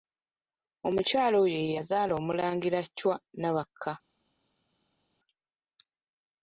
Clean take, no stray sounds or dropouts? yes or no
yes